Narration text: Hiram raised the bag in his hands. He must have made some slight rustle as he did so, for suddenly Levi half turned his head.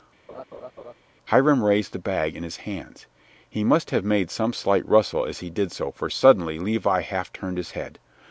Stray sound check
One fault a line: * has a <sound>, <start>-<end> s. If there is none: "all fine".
* has a laugh, 0.3-0.9 s